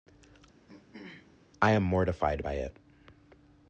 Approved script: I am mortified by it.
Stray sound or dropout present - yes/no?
yes